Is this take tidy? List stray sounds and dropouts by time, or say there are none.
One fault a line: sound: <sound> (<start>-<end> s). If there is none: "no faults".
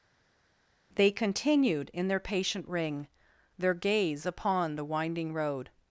no faults